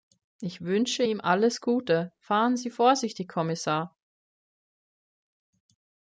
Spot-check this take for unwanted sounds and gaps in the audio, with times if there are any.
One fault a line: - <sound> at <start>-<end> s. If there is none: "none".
none